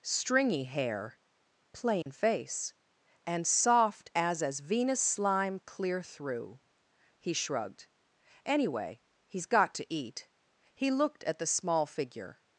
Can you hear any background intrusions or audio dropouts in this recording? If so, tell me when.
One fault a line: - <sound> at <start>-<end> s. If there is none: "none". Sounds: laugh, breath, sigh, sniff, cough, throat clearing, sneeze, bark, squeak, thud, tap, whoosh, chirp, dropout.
- dropout at 2.0-2.1 s